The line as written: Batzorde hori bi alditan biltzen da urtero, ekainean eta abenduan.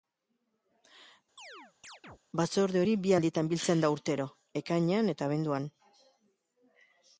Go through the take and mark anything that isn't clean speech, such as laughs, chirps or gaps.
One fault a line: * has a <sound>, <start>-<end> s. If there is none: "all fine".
* has a chirp, 1.4-2.2 s